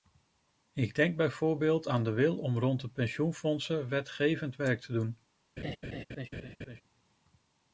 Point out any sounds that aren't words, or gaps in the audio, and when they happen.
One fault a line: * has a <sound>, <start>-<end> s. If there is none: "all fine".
* has a laugh, 5.6-6.8 s